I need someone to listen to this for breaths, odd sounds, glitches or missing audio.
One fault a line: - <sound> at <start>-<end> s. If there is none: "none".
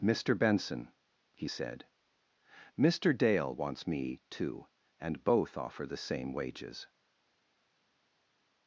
none